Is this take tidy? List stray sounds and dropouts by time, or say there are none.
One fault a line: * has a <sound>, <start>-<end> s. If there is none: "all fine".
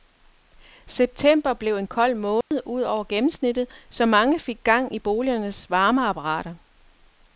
* has a dropout, 2.4-2.5 s